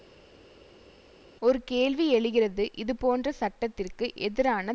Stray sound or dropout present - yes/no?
no